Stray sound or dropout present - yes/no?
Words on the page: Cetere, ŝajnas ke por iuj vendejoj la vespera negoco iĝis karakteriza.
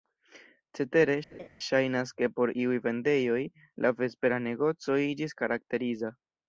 yes